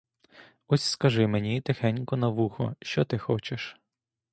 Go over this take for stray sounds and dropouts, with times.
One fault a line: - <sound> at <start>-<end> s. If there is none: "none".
none